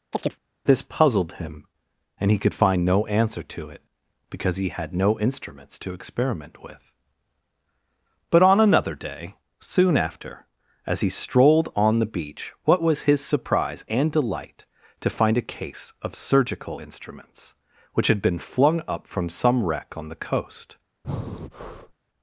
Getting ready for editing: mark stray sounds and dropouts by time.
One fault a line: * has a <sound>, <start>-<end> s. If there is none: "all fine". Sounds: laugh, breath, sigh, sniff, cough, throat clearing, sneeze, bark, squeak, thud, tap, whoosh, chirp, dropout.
* has a chirp, 0.1-0.4 s
* has a breath, 21.0-21.9 s